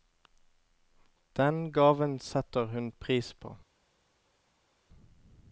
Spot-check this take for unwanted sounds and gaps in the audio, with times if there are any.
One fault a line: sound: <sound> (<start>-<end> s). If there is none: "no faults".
no faults